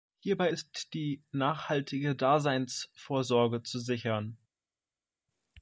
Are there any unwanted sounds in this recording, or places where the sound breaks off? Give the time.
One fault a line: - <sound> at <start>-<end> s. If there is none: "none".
none